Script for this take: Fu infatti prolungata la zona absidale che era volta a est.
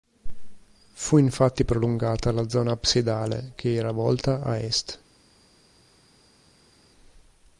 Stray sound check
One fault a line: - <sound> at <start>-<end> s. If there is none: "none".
none